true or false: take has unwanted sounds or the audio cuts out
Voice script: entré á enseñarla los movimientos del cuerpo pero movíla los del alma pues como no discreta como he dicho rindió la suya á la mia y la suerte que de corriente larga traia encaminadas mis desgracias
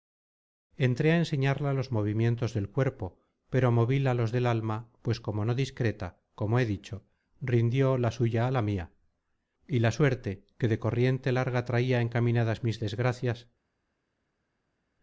false